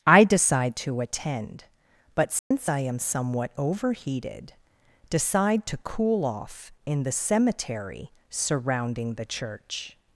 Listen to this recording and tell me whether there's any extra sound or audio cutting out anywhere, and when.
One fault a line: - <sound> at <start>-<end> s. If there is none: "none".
- dropout at 2.4-2.5 s